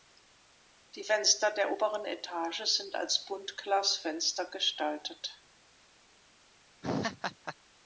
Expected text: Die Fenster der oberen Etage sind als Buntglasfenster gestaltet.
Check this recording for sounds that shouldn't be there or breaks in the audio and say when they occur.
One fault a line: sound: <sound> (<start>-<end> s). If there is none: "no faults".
sound: laugh (6.8-7.6 s)